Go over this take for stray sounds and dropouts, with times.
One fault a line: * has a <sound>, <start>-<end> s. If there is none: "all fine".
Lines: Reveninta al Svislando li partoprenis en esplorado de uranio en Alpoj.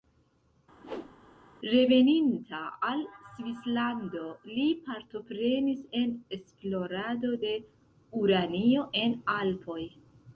* has a whoosh, 0.8-1.2 s